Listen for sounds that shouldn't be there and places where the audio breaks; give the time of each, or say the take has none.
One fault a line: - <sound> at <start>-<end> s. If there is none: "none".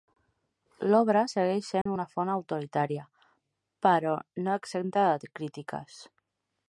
- dropout at 1.8-1.9 s